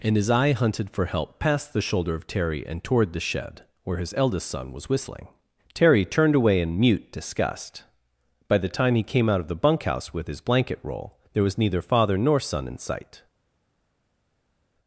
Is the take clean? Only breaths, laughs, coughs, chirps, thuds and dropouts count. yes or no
yes